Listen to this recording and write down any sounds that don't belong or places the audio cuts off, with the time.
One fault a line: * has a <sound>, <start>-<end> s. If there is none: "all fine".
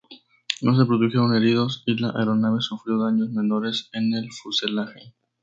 all fine